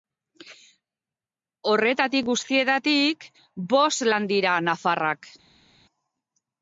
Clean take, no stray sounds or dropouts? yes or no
yes